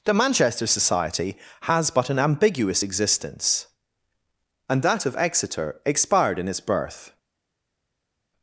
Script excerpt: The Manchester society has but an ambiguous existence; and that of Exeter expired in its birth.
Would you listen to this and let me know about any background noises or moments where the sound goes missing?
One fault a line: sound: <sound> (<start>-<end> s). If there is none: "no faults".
no faults